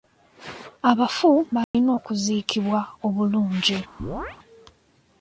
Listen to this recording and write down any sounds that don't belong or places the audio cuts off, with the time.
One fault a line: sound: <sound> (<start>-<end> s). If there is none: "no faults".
sound: dropout (1.6-1.7 s)
sound: chirp (4.0-4.4 s)